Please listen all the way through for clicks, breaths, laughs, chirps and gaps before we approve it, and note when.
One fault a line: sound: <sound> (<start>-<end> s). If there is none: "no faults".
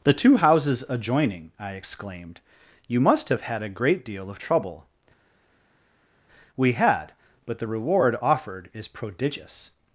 no faults